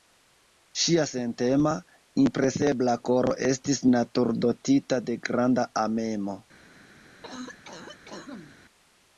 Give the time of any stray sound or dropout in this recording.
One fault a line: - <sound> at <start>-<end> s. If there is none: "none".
- cough at 7.2-8.5 s